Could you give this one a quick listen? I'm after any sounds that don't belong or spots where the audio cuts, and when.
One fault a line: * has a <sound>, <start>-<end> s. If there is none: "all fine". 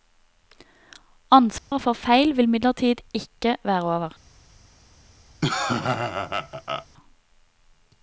* has a dropout, 1.6-1.7 s
* has a laugh, 5.4-6.9 s